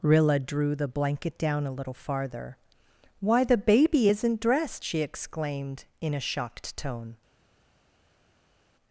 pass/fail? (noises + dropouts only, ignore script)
pass